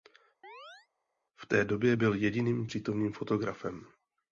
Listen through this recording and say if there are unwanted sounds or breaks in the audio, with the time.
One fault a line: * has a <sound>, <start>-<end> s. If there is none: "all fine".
* has a chirp, 0.4-0.9 s